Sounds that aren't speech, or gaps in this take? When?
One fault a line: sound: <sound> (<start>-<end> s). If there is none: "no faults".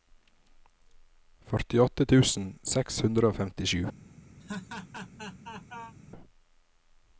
sound: laugh (4.4-6.0 s)